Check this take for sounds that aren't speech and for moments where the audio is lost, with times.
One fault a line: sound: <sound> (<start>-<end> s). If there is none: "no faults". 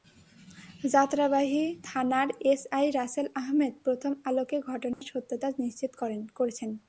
sound: dropout (4.9-5.0 s)